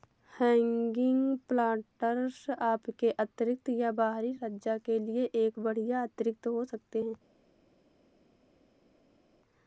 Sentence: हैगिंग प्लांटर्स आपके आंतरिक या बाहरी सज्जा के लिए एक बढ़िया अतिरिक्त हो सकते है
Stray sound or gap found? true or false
false